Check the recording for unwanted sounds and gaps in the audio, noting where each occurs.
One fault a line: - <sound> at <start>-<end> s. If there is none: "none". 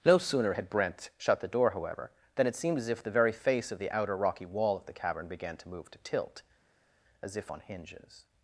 none